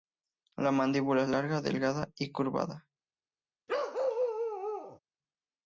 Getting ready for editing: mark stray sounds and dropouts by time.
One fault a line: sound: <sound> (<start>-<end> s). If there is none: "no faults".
sound: bark (3.7-5.0 s)